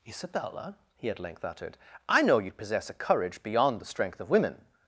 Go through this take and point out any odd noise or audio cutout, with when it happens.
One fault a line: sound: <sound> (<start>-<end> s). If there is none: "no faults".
no faults